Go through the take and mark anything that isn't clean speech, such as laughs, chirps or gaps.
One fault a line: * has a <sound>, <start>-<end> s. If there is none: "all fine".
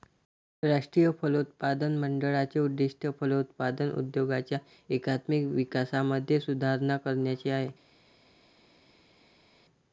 all fine